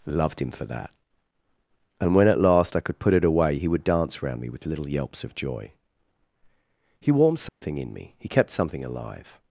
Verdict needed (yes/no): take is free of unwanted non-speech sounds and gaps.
no